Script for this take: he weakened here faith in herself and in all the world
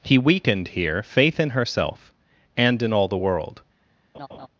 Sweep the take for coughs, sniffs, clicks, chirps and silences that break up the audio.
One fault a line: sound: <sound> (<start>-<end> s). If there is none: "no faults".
sound: laugh (4.1-4.5 s)